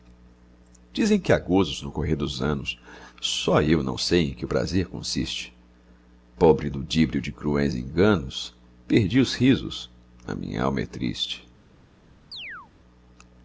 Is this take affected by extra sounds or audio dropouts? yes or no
yes